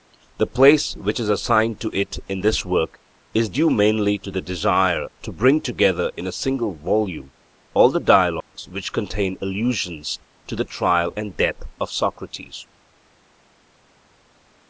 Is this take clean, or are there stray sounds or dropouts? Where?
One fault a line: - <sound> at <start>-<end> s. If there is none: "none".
- dropout at 8.4-8.5 s